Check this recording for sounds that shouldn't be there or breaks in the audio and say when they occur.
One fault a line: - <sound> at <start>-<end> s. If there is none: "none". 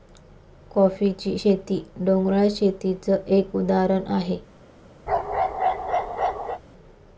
- bark at 5.1-6.6 s